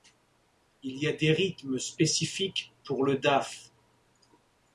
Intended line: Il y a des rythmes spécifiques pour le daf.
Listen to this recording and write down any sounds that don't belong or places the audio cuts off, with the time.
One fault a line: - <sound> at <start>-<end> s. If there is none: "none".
none